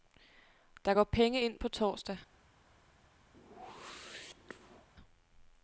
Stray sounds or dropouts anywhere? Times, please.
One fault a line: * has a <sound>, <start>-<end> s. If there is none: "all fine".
* has a whoosh, 3.3-4.9 s